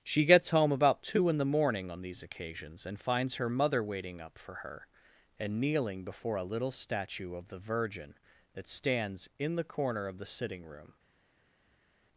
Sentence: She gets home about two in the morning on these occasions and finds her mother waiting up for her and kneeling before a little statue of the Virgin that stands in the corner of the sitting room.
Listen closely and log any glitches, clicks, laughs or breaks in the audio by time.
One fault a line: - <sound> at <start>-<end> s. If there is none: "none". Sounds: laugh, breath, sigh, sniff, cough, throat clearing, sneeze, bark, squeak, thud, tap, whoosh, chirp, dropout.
none